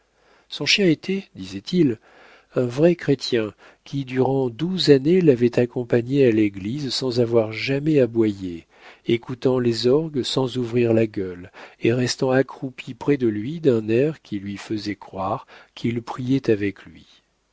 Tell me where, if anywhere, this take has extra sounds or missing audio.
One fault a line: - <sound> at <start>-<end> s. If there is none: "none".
none